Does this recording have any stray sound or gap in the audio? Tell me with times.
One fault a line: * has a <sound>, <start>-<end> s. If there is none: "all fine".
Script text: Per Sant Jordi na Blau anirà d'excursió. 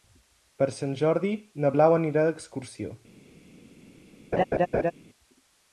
* has a laugh, 4.3-4.9 s